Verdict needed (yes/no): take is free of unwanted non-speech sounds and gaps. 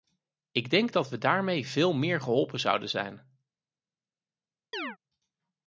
no